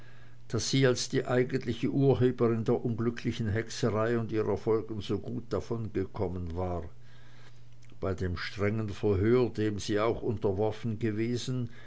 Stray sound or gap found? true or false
false